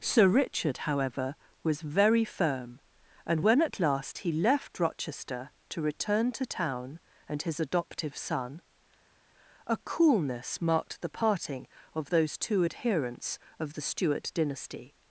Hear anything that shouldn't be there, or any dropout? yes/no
no